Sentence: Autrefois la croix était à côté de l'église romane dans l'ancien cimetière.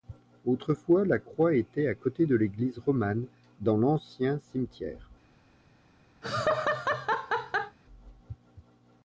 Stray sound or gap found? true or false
true